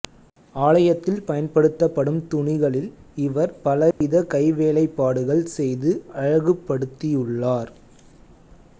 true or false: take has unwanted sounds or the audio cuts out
true